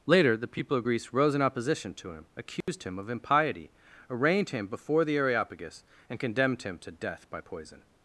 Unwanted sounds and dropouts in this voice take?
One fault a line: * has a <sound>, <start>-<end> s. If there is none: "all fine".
* has a dropout, 2.6-2.7 s